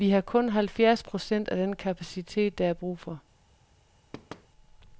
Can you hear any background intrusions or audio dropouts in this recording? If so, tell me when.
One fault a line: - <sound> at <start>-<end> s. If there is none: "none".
- thud at 4.1-4.5 s